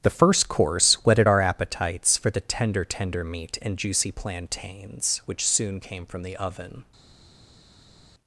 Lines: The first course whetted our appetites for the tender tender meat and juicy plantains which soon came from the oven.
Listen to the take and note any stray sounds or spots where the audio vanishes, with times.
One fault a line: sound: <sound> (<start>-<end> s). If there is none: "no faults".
no faults